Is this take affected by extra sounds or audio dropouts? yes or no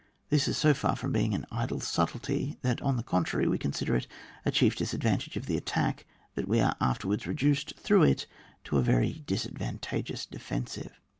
no